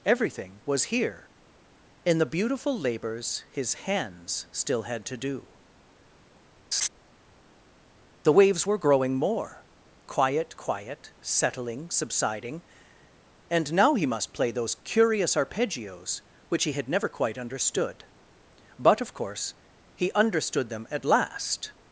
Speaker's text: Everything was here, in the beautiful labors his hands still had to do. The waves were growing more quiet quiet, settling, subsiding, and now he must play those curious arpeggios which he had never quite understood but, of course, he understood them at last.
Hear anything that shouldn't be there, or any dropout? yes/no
yes